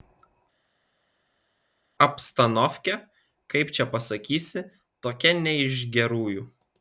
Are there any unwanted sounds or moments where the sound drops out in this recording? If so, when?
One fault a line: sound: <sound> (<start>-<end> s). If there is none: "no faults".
no faults